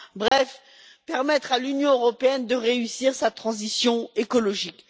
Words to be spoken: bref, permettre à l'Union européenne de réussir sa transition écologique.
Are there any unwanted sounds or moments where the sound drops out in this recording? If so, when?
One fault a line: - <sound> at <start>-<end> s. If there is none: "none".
- dropout at 0.3-0.3 s